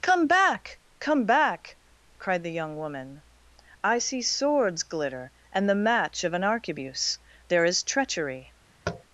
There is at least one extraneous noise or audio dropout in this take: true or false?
true